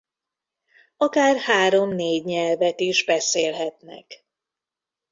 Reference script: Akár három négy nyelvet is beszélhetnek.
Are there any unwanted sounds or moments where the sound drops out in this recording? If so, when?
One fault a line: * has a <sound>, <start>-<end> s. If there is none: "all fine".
all fine